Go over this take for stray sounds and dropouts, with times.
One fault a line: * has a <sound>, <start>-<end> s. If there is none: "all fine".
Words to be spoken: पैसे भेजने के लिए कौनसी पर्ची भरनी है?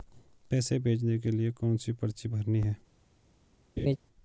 * has a laugh, 3.8-4.0 s